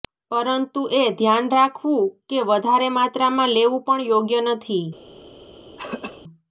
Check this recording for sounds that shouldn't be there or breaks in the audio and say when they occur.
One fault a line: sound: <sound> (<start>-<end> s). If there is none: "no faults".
sound: throat clearing (5.8-6.2 s)